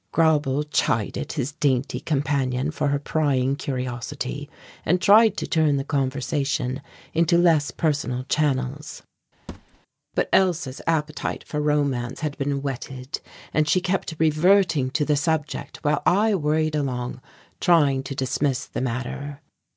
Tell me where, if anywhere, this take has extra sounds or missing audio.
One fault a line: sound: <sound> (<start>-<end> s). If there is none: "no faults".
sound: thud (9.5-9.8 s)